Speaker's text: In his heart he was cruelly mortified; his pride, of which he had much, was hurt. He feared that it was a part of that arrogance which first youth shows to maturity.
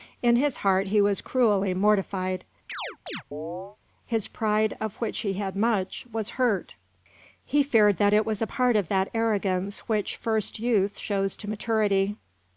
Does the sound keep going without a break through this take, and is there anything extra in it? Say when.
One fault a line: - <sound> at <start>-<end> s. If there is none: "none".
- chirp at 2.7-3.8 s